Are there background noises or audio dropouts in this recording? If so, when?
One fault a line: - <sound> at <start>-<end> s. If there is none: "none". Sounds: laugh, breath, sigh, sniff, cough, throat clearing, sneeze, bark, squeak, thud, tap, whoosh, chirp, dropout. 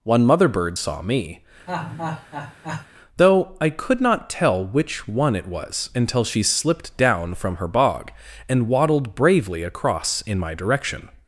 - laugh at 1.7-2.9 s